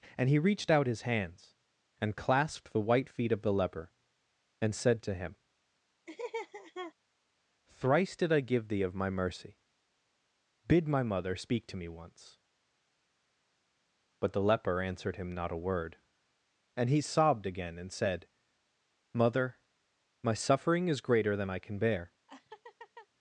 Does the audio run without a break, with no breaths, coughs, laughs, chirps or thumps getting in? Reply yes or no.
no